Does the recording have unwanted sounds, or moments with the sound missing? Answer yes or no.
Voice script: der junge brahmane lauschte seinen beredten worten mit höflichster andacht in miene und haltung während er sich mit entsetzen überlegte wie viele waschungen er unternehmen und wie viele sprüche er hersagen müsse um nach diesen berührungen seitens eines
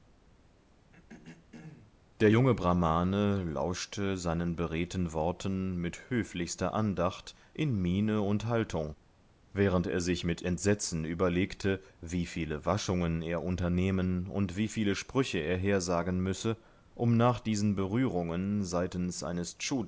yes